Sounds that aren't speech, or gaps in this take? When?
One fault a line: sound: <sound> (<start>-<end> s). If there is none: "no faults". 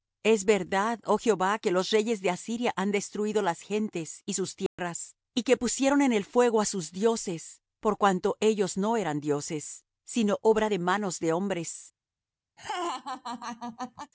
sound: dropout (4.7-4.8 s)
sound: laugh (12.6-14.1 s)